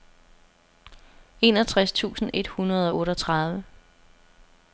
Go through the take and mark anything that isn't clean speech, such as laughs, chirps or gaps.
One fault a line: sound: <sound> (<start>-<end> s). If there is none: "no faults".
no faults